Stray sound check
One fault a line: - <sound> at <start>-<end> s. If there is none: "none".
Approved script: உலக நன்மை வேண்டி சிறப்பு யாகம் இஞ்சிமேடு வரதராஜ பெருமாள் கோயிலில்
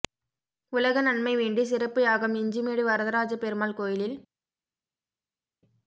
none